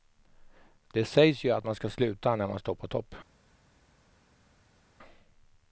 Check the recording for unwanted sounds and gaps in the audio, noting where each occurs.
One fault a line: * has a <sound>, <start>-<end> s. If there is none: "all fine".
all fine